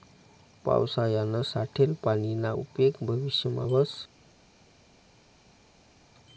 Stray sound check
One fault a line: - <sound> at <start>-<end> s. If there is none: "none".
none